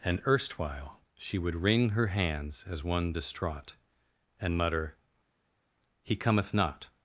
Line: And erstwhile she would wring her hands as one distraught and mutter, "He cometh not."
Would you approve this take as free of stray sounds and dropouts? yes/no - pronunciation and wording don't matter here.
yes